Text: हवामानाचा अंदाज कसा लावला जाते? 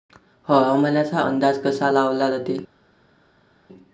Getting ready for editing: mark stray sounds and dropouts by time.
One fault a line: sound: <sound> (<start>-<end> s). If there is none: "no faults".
no faults